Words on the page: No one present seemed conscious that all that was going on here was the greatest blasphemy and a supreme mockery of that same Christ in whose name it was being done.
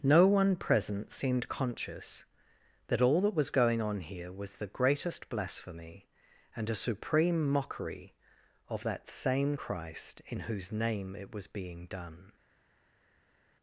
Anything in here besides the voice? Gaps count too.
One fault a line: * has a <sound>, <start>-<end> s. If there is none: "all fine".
all fine